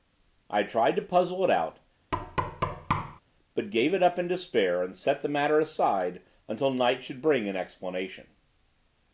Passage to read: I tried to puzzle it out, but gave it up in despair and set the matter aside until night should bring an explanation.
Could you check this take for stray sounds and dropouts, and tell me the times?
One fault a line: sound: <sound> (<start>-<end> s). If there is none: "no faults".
sound: thud (2.1-3.2 s)